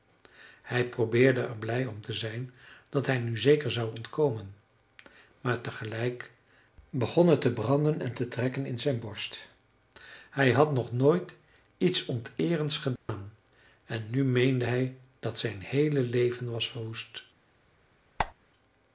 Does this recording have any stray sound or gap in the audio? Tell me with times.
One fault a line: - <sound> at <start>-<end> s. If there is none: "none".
- dropout at 13.0-13.1 s
- squeak at 18.2-18.3 s